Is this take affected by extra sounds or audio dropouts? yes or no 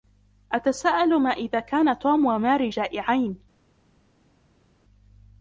no